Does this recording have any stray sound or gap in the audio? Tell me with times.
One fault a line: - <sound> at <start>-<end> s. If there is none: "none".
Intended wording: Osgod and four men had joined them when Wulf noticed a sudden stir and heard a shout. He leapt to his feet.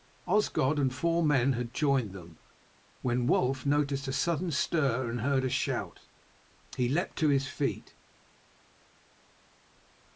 none